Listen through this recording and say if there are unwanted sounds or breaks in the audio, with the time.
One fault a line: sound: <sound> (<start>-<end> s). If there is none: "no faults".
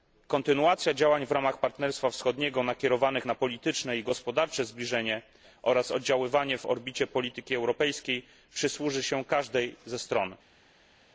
no faults